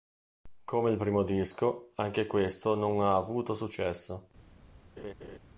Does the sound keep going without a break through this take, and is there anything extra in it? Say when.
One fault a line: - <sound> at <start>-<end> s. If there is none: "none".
- laugh at 5.0-5.4 s